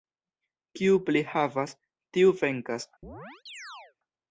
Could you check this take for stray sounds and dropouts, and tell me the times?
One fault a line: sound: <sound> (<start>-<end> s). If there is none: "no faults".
sound: chirp (3.0-4.0 s)